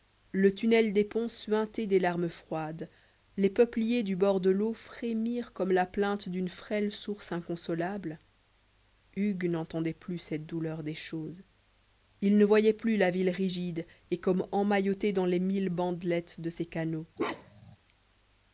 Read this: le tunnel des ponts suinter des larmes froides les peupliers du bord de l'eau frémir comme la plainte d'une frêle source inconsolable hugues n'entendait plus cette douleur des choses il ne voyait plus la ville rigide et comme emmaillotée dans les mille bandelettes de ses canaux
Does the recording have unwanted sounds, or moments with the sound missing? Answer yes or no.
yes